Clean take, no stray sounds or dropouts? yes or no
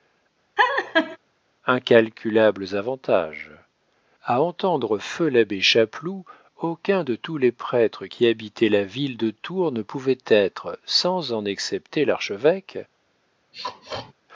no